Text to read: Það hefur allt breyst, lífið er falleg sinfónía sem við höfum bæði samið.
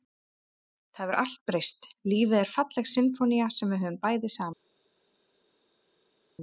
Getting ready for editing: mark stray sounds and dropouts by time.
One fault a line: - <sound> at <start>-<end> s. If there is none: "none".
none